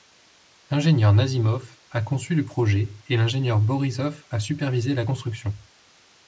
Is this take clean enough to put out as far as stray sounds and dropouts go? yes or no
yes